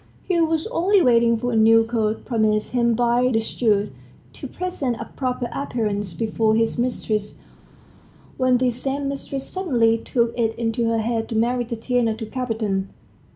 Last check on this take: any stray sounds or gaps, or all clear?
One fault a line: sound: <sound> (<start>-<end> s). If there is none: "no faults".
no faults